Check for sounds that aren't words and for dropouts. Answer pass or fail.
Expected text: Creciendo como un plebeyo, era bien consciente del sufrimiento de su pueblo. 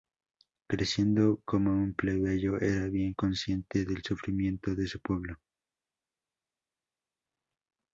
pass